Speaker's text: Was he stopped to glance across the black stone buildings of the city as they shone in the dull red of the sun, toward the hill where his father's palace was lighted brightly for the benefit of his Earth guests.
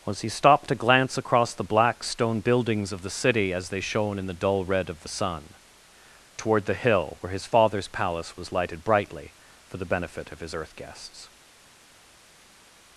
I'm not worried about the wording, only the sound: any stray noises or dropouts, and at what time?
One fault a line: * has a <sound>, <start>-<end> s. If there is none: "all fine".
all fine